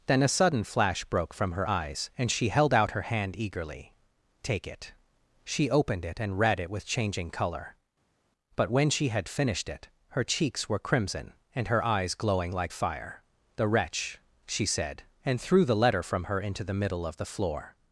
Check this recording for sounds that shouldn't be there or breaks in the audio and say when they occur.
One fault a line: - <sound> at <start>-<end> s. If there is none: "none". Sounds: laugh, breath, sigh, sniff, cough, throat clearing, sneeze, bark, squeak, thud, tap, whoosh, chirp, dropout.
none